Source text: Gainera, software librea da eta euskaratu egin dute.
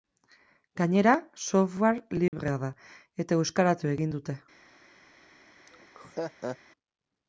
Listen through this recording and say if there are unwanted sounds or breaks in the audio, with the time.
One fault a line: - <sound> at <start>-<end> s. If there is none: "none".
- dropout at 2.3-2.3 s
- laugh at 5.7-6.6 s